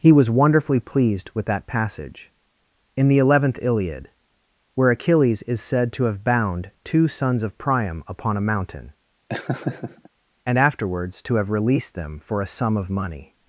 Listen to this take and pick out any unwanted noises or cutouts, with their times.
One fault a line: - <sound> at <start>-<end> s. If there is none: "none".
- laugh at 9.3-10.1 s